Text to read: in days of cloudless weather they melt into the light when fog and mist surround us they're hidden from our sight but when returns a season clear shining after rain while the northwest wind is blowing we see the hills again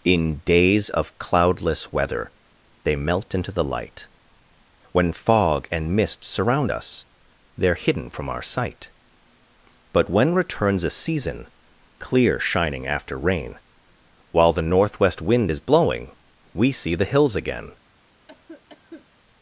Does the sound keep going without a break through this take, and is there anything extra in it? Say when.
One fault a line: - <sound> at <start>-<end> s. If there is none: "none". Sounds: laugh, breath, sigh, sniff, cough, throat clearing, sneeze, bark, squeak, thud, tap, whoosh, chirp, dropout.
- cough at 18.3-19.1 s